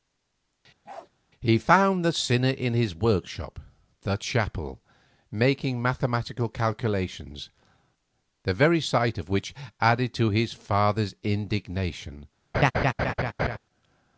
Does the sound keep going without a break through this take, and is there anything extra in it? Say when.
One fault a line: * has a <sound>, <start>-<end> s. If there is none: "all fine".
* has a bark, 0.8-1.1 s
* has a laugh, 12.5-13.6 s